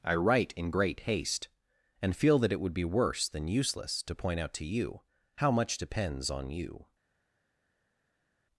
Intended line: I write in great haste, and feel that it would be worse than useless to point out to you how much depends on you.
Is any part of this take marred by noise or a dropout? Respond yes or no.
no